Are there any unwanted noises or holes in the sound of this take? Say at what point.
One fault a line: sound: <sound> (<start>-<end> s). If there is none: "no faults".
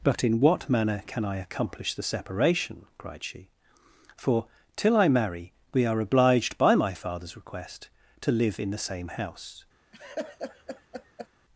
sound: laugh (9.9-11.3 s)